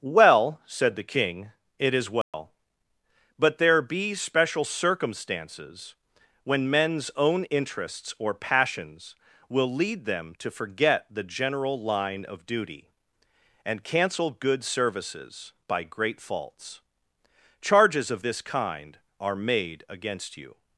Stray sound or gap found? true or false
true